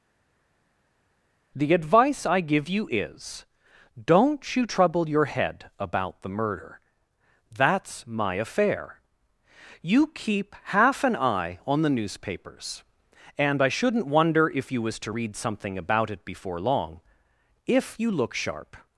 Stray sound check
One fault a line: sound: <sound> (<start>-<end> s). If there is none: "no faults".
no faults